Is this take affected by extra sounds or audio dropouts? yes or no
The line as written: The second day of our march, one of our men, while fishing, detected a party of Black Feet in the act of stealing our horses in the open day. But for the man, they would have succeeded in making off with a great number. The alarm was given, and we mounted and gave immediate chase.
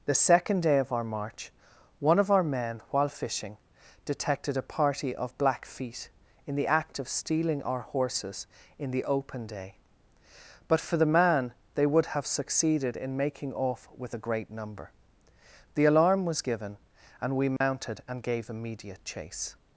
yes